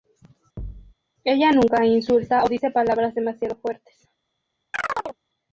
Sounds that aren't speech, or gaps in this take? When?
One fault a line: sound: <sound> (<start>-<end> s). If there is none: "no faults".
sound: thud (0.6-0.9 s)
sound: chirp (4.7-5.2 s)